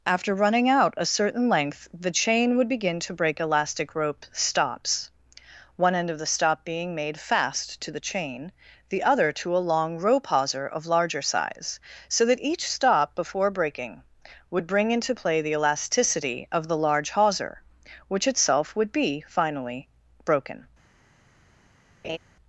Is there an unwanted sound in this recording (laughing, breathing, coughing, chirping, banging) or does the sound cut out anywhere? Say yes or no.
yes